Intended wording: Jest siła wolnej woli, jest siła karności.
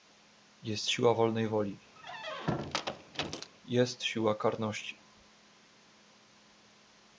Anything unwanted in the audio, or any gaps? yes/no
yes